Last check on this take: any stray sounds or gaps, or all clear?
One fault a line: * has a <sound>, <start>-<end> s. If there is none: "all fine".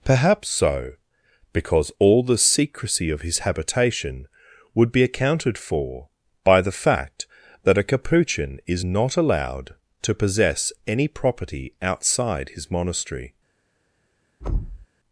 * has a thud, 14.4-14.9 s